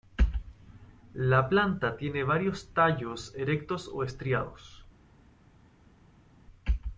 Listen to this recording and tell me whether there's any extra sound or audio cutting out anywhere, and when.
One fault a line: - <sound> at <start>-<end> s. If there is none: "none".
none